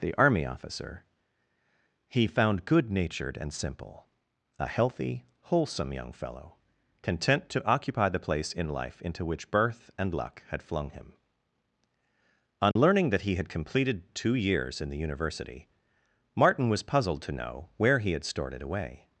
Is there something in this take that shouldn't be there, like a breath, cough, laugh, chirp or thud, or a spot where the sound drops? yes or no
yes